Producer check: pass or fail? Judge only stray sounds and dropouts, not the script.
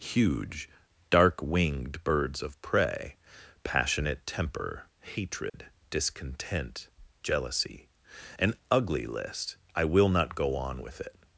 fail